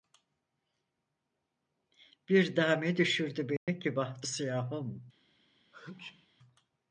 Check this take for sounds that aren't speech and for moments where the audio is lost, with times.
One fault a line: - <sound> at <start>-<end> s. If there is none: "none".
- dropout at 3.6-3.7 s
- sneeze at 5.7-6.3 s